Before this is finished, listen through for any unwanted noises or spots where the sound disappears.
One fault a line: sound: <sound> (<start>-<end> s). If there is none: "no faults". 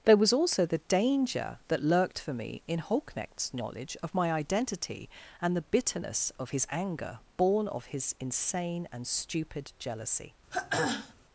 sound: throat clearing (10.5-11.1 s)